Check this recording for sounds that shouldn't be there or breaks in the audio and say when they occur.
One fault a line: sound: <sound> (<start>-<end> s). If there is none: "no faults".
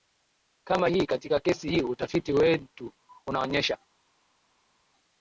no faults